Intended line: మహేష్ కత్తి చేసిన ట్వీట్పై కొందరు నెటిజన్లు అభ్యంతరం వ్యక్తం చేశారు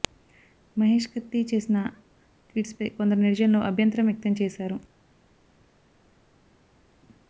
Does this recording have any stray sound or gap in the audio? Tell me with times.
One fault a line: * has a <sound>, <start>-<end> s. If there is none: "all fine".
all fine